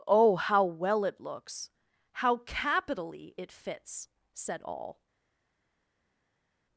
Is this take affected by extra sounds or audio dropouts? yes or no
no